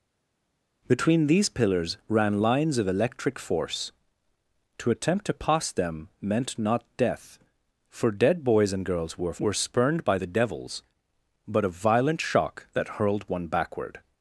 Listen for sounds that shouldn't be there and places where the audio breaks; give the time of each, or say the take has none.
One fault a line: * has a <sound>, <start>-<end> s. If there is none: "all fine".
all fine